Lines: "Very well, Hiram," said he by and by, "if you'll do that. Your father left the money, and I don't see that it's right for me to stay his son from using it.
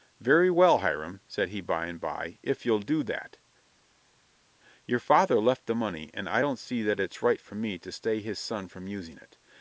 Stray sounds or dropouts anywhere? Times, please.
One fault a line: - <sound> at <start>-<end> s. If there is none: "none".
none